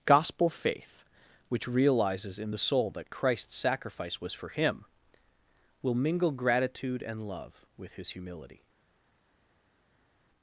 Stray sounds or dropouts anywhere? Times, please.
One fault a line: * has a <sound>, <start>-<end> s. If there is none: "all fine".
all fine